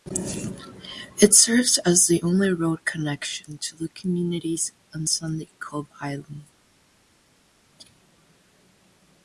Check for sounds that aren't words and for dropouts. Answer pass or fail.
pass